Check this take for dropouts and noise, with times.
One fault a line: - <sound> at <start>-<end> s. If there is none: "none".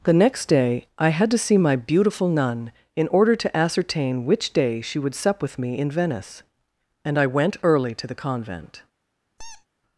- squeak at 9.4-9.7 s